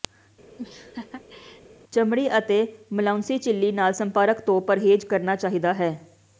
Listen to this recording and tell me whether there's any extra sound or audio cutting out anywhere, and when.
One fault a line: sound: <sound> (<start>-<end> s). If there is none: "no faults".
sound: laugh (0.6-1.6 s)